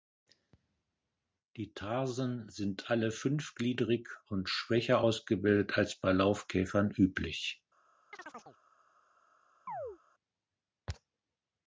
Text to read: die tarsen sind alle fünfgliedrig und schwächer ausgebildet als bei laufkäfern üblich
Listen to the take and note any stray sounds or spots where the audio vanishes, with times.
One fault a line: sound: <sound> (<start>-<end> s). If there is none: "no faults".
sound: chirp (8.1-8.6 s)
sound: chirp (9.7-10.0 s)